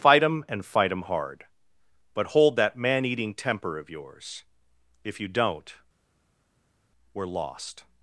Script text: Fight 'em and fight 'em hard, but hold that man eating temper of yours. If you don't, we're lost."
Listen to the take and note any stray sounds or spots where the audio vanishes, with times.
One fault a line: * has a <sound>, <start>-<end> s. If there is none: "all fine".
all fine